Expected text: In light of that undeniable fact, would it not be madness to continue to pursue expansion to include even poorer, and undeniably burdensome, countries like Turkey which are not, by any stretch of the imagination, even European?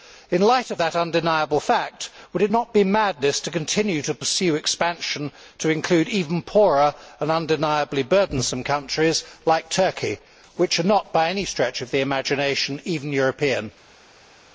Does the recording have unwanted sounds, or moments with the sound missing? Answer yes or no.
no